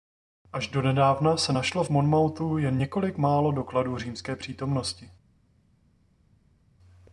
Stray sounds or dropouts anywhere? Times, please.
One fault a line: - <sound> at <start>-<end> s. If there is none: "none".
none